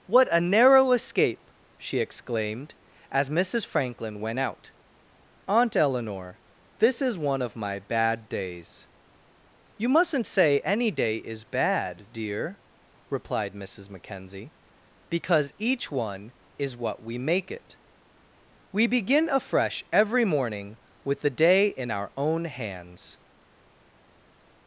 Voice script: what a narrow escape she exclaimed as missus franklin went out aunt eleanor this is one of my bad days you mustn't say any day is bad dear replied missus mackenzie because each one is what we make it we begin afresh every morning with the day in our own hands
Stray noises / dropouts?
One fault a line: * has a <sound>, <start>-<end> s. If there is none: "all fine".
all fine